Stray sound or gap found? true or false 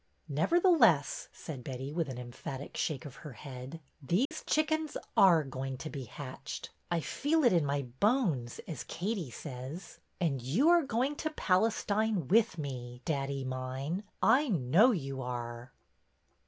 true